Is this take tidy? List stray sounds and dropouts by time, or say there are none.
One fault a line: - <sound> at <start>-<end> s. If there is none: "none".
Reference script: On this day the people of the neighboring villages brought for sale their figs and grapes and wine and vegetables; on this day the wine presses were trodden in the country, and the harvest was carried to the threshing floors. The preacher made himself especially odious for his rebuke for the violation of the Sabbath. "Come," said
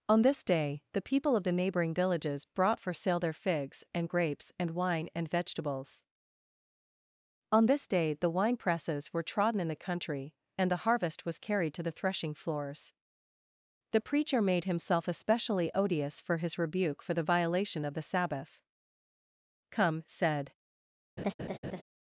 - laugh at 21.2-21.8 s